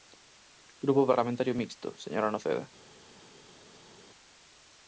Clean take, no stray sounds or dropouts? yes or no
yes